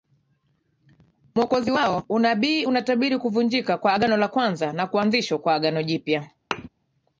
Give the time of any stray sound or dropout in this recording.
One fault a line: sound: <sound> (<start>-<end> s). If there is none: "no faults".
sound: thud (6.5-6.7 s)